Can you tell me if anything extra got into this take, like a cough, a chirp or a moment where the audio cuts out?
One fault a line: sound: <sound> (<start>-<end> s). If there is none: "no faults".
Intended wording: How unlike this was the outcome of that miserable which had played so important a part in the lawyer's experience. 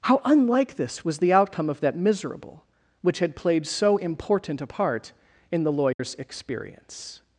sound: dropout (5.9-6.0 s)